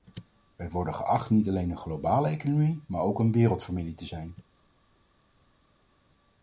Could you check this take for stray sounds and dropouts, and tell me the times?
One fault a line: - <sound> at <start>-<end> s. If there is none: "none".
none